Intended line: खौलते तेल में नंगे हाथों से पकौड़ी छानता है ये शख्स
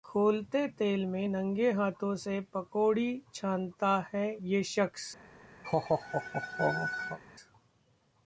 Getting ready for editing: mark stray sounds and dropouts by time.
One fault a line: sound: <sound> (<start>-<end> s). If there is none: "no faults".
sound: laugh (5.6-7.2 s)